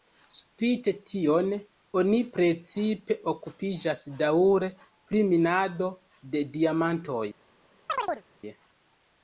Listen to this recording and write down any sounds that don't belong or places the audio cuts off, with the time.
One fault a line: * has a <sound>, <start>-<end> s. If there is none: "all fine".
* has a chirp, 7.9-8.2 s